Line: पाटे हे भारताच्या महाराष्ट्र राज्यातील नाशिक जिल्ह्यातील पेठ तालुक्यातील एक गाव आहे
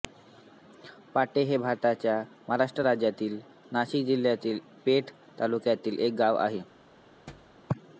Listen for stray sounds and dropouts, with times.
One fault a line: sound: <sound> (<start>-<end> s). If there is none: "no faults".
sound: thud (7.3-7.6 s)